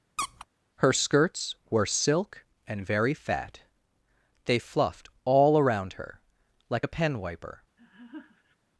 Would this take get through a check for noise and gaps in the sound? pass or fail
fail